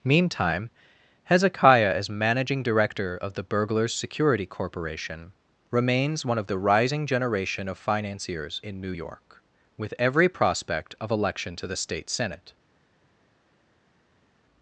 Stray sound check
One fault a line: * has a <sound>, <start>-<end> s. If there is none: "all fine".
all fine